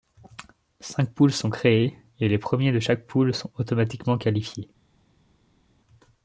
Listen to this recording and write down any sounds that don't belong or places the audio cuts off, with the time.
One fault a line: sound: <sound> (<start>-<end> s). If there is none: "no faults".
no faults